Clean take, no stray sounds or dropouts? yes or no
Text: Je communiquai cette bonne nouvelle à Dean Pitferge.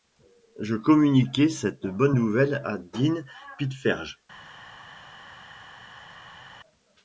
yes